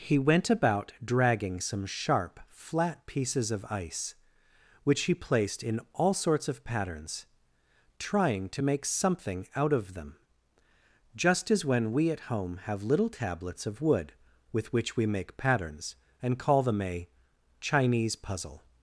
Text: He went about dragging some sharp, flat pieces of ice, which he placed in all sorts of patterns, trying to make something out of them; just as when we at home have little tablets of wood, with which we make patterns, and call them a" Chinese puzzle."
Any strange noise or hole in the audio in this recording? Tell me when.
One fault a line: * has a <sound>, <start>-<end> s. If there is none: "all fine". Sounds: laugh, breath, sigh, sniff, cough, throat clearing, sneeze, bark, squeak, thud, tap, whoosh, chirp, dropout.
all fine